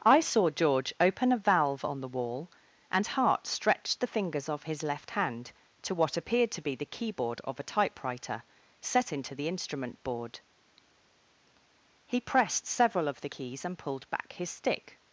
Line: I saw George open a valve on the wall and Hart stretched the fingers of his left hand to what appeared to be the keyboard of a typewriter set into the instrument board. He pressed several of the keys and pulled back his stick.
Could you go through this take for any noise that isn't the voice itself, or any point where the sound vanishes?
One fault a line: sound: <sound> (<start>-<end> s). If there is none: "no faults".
no faults